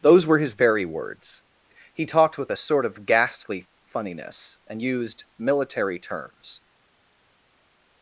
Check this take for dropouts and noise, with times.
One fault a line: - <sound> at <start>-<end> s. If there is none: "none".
none